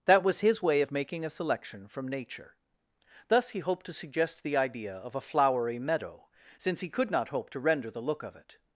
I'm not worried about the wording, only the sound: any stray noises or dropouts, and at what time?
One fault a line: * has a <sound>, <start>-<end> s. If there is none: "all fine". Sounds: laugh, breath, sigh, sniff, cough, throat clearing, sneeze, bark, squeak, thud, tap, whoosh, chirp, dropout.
all fine